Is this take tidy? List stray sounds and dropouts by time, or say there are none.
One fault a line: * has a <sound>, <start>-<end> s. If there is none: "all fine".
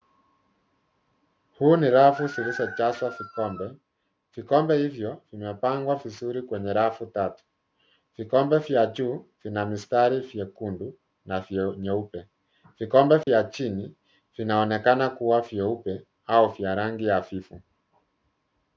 * has a dropout, 13.2-13.3 s